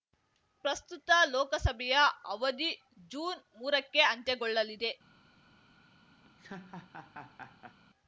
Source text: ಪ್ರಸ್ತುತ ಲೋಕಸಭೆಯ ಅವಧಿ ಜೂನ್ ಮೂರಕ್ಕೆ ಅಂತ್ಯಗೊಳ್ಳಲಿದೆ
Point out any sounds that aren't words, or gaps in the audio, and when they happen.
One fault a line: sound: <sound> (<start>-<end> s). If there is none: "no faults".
sound: laugh (6.2-7.8 s)